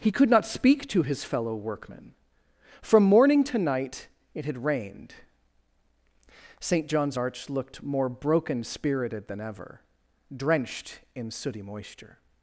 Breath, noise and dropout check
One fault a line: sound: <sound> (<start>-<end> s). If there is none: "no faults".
no faults